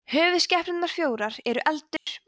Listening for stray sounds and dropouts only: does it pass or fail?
fail